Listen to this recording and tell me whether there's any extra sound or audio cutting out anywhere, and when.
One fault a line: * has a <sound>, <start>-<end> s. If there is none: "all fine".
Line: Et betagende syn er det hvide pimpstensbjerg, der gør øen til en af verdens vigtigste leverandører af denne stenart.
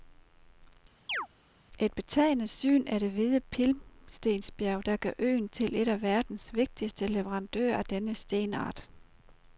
* has a chirp, 1.1-1.3 s